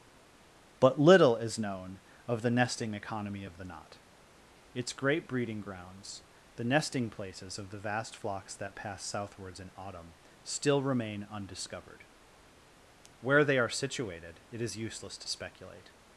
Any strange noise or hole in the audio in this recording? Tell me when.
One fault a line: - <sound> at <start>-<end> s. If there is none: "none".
none